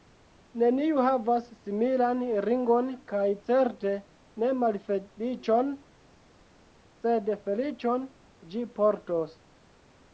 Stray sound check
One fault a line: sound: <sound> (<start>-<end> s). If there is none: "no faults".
no faults